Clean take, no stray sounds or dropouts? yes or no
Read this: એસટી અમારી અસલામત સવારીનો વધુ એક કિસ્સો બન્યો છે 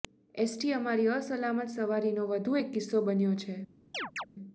no